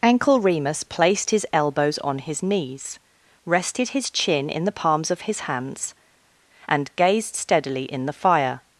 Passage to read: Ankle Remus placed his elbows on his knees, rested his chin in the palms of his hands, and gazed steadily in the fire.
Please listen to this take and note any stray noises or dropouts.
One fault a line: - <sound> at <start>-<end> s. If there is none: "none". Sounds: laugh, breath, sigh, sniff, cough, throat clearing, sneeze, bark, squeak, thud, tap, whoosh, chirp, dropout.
none